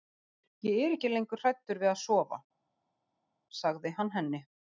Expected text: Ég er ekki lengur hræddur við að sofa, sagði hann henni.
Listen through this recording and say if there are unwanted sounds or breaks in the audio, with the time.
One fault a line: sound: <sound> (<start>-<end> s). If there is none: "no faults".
no faults